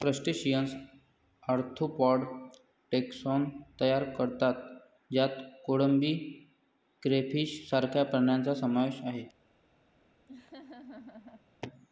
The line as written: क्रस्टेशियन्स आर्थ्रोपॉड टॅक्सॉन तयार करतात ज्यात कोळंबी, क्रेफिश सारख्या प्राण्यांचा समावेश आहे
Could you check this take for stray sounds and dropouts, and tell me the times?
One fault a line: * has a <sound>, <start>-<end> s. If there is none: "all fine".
* has a laugh, 10.3-11.5 s